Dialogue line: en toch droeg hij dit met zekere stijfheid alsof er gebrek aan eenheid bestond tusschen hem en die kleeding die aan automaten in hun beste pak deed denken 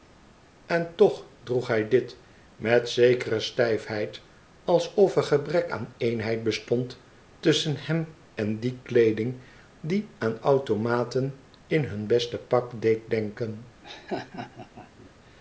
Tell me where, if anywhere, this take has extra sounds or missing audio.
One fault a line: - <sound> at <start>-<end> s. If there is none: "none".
- laugh at 13.8-15.1 s